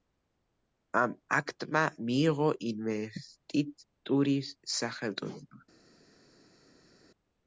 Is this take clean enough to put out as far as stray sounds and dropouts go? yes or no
yes